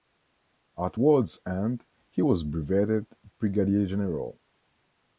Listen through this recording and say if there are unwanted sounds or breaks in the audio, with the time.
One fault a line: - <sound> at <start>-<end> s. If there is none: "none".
none